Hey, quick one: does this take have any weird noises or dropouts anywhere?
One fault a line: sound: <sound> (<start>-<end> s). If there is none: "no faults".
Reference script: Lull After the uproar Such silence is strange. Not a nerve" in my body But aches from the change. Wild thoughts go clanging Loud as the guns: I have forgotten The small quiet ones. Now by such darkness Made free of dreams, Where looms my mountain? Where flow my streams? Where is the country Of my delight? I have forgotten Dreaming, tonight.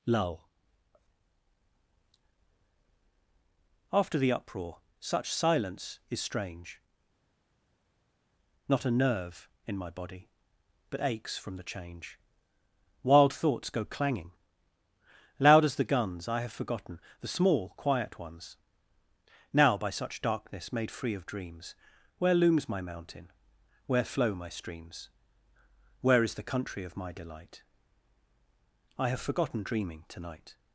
no faults